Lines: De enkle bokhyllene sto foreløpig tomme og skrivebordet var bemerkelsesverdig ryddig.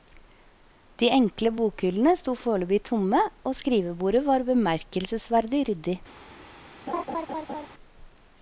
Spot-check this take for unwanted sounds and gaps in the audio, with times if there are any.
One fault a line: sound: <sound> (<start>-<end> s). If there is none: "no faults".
sound: laugh (6.9-7.7 s)